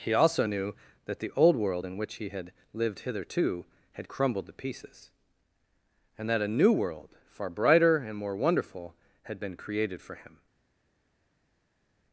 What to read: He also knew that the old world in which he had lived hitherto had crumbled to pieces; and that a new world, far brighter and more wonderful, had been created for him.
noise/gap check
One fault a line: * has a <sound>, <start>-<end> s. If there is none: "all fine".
all fine